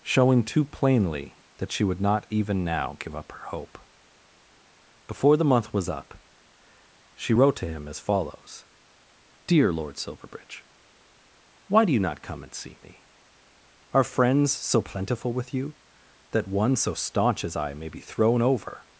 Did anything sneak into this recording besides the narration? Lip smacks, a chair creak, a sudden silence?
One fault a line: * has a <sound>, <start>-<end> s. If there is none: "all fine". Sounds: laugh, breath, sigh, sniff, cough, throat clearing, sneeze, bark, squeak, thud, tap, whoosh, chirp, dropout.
all fine